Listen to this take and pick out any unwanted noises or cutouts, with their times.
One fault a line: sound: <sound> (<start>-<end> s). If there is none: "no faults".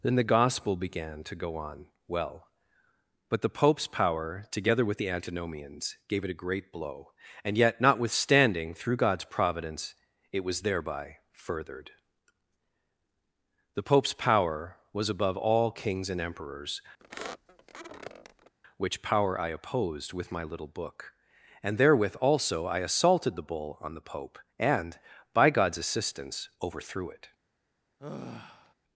sound: squeak (17.0-18.5 s)
sound: sigh (28.0-28.7 s)